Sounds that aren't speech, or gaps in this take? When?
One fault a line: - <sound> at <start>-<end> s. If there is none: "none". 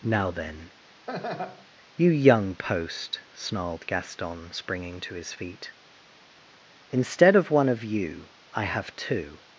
- laugh at 1.1-1.7 s